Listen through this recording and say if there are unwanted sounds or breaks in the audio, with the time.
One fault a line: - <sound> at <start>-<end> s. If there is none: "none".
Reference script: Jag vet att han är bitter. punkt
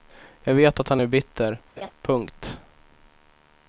- laugh at 1.8-1.9 s